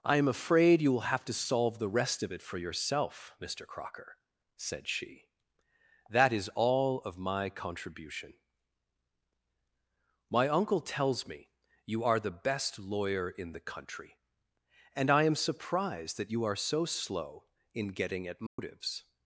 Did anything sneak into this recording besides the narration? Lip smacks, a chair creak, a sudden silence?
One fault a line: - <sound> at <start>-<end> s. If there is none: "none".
- dropout at 18.5-18.6 s